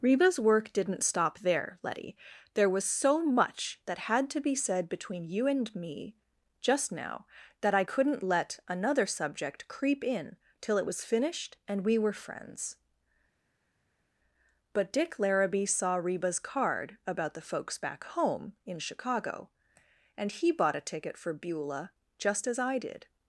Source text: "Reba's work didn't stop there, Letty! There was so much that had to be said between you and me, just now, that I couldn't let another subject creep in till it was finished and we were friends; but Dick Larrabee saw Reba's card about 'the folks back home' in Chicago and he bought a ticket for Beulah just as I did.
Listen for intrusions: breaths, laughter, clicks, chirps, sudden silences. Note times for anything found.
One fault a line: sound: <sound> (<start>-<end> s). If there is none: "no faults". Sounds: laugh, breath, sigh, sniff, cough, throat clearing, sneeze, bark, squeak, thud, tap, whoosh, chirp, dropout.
no faults